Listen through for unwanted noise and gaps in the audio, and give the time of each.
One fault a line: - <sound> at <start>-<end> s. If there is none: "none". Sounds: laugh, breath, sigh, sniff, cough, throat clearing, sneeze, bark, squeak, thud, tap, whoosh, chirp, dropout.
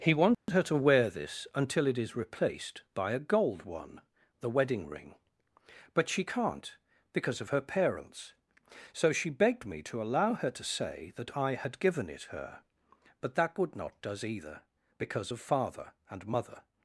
- dropout at 0.3-0.5 s